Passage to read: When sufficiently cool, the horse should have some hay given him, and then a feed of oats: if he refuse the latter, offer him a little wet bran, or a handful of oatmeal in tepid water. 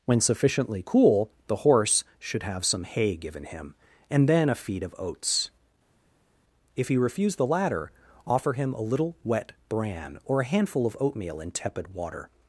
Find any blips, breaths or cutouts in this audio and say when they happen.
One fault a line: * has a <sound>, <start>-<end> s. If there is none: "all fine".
all fine